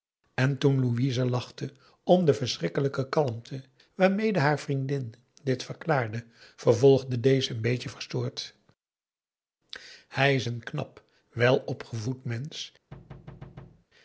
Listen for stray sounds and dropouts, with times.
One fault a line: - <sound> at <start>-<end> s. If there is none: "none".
- thud at 12.9-13.9 s